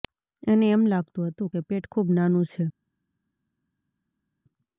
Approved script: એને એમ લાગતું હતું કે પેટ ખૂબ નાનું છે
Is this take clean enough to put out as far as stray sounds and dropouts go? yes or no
yes